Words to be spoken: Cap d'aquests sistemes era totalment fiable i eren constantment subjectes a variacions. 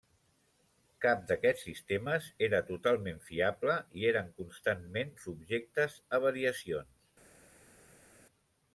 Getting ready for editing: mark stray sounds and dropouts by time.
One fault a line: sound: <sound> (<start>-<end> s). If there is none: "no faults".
no faults